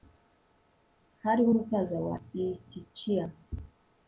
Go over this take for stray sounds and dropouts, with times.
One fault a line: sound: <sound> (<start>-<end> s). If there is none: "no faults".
no faults